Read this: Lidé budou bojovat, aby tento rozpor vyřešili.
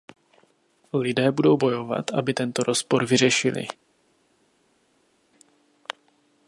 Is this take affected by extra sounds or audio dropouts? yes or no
no